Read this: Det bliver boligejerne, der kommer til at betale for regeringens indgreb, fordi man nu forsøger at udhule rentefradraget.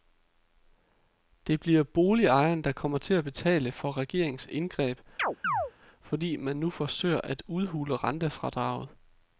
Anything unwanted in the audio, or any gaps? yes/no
yes